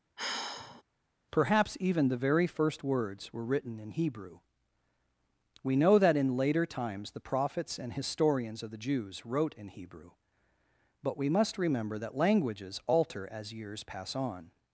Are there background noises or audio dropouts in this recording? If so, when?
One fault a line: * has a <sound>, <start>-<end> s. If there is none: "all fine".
* has a sigh, 0.2-0.8 s